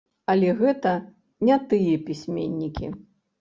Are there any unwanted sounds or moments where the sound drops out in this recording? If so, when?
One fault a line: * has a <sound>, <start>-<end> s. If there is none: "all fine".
all fine